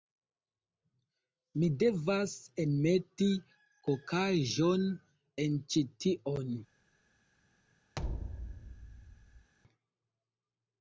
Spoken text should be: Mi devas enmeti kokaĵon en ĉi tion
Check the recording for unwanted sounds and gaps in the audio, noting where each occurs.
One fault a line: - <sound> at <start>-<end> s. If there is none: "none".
- thud at 8.0-9.5 s